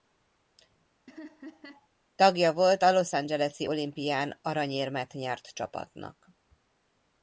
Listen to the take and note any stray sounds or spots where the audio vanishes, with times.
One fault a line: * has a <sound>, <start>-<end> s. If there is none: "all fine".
* has a laugh, 1.1-1.9 s